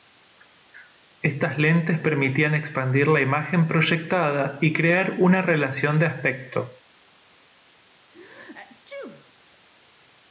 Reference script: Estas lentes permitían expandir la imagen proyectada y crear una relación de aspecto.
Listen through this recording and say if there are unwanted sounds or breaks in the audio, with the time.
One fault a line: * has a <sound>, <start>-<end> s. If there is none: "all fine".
* has a sneeze, 8.1-9.3 s